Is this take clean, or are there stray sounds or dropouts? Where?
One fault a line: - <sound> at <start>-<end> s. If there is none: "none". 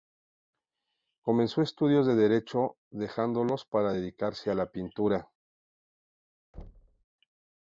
- thud at 6.5-7.0 s